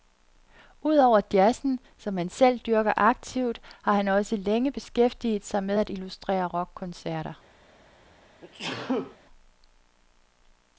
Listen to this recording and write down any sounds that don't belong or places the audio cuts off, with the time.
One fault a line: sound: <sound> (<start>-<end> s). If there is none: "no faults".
sound: sneeze (8.4-9.2 s)